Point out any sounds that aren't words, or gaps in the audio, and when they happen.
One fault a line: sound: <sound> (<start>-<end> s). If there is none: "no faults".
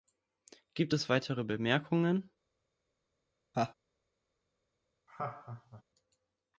sound: laugh (3.5-3.7 s)
sound: laugh (5.1-5.8 s)